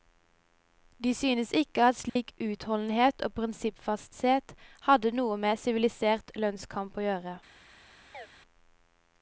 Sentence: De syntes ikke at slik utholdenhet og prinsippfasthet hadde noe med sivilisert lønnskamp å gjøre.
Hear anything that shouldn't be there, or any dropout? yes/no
yes